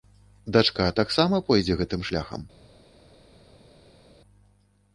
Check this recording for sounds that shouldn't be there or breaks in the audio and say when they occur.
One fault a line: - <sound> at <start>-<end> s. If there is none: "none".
none